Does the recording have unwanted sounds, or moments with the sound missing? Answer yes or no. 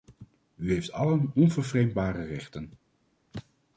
no